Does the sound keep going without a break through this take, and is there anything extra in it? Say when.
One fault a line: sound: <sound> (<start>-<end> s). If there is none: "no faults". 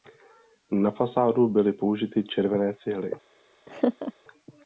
sound: laugh (3.7-4.1 s)